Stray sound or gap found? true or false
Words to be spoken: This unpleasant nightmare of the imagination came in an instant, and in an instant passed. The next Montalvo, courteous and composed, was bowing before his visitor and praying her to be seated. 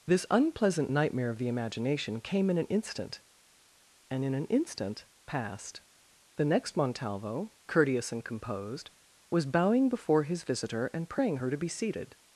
false